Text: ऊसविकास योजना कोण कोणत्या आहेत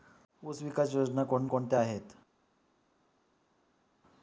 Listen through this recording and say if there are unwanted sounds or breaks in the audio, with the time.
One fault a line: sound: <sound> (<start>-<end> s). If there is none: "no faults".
no faults